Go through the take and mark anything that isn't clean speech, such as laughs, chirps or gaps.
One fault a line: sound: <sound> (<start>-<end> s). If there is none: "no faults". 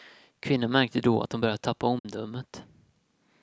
sound: dropout (2.0-2.0 s)